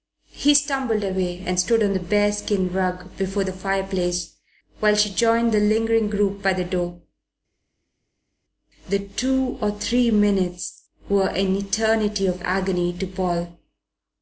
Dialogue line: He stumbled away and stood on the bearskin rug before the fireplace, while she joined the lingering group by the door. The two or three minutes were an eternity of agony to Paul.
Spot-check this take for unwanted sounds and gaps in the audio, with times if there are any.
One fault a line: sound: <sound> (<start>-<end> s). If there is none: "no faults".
no faults